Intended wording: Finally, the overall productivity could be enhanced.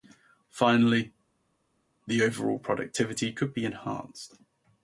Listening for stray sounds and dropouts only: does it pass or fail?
pass